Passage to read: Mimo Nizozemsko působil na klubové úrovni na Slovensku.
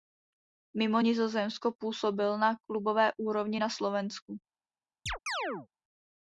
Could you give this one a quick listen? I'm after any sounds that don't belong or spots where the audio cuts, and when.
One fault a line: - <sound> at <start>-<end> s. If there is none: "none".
- chirp at 5.1-5.7 s